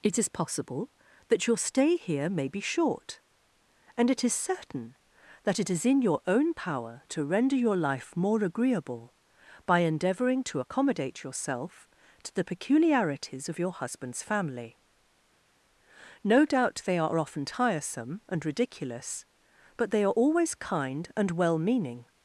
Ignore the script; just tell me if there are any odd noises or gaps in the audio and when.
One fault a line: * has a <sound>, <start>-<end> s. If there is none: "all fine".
all fine